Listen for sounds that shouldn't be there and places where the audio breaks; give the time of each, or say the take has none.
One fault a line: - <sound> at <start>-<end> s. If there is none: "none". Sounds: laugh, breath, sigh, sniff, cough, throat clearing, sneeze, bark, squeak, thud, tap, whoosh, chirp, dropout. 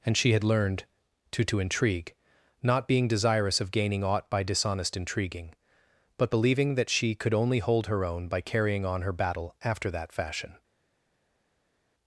none